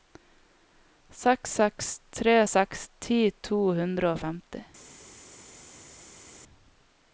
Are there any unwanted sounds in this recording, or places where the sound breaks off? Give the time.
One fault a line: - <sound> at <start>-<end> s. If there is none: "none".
none